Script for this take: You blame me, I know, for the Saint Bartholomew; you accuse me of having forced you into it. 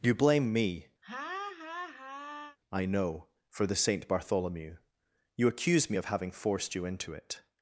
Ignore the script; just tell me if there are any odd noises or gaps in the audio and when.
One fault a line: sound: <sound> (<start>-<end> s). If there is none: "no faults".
sound: laugh (1.0-2.6 s)